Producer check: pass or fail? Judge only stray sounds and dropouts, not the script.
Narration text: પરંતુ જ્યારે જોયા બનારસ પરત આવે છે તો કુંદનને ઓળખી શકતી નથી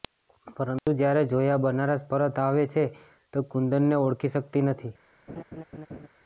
fail